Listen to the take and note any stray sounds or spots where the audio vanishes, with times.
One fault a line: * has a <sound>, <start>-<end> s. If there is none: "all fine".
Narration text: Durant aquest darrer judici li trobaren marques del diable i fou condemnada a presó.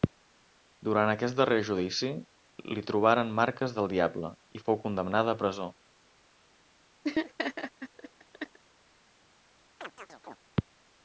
* has a laugh, 7.0-8.6 s
* has a chirp, 9.8-10.4 s